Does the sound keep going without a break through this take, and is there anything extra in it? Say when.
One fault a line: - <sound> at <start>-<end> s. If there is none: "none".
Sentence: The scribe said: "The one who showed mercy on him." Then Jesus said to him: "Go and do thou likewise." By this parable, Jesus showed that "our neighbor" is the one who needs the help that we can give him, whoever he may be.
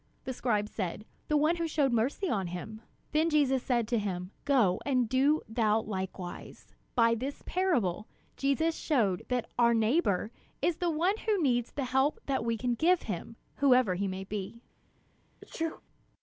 - sneeze at 15.4-15.8 s